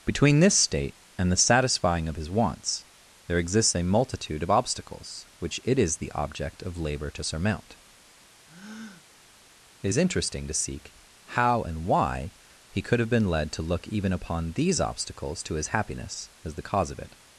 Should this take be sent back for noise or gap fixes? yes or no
yes